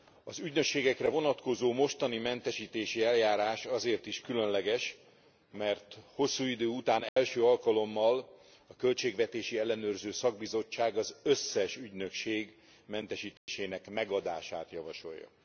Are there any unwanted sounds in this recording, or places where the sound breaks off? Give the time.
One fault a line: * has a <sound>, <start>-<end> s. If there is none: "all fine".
* has a dropout, 7.1-7.2 s
* has a dropout, 13.4-13.5 s